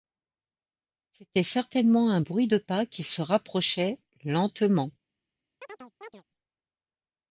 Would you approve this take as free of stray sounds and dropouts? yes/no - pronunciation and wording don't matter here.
no